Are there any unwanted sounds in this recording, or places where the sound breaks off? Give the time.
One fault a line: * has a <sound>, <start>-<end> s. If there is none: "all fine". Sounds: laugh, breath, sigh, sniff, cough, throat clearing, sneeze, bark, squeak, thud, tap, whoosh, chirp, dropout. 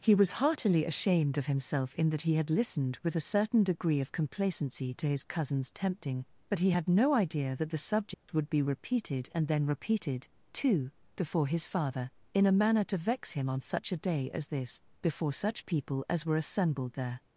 * has a dropout, 8.1-8.3 s